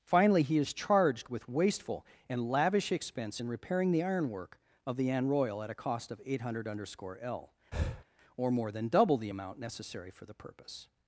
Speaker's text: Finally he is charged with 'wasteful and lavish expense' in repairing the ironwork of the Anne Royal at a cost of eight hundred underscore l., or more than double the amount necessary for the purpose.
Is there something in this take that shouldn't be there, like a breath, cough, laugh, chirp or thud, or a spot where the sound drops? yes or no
yes